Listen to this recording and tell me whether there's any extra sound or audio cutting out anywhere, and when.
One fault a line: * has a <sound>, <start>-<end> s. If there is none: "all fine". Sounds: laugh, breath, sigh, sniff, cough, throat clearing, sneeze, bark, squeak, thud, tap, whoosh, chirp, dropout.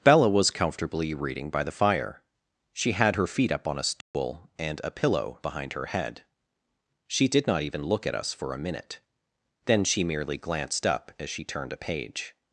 * has a dropout, 4.0-4.1 s